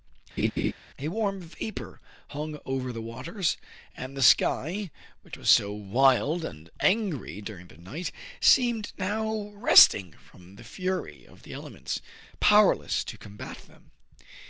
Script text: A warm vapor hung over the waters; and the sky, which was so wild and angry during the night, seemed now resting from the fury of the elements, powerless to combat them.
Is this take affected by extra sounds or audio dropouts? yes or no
yes